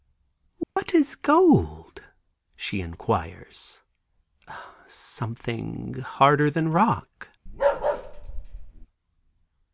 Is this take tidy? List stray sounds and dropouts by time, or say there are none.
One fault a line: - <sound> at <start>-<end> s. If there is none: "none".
- dropout at 0.6-0.8 s
- bark at 7.5-8.9 s